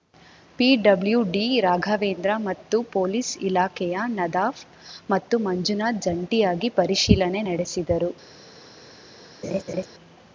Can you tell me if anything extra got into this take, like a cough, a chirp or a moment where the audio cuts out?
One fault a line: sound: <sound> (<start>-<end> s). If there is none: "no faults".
sound: laugh (9.4-9.9 s)